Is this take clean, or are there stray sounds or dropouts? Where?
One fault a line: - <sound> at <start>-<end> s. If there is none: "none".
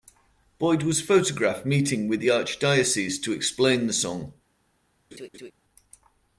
- laugh at 5.1-5.5 s